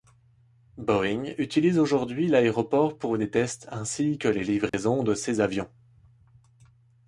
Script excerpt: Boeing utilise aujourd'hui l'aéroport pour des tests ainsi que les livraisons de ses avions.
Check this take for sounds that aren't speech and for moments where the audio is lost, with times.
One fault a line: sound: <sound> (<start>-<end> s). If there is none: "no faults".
sound: dropout (4.7-4.7 s)